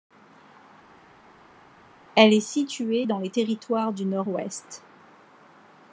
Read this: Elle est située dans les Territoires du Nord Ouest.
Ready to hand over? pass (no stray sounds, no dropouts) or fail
pass